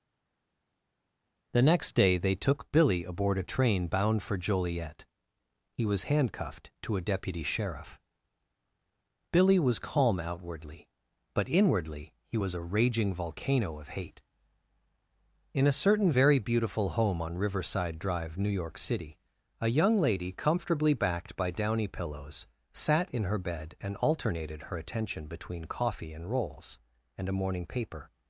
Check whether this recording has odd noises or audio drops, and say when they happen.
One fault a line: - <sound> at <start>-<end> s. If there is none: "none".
none